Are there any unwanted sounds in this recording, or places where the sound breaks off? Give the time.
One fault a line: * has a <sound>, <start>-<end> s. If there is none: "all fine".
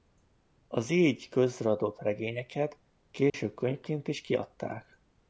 * has a dropout, 3.3-3.3 s